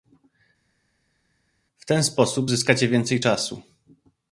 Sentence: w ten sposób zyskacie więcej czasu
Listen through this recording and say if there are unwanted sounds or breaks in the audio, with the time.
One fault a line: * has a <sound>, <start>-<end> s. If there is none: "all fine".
all fine